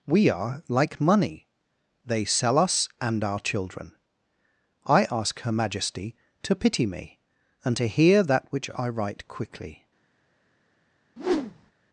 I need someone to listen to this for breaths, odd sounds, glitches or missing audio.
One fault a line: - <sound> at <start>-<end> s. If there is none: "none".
- whoosh at 11.2-11.7 s